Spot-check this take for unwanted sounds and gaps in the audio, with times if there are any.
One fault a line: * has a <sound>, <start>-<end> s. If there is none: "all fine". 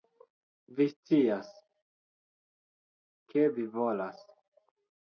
all fine